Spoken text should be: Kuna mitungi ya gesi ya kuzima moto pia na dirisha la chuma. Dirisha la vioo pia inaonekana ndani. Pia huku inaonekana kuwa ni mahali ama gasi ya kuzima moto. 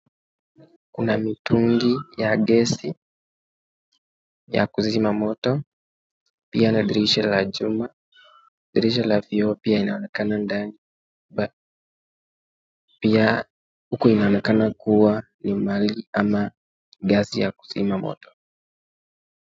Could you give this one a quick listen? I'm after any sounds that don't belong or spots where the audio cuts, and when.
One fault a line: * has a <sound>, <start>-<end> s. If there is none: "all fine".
all fine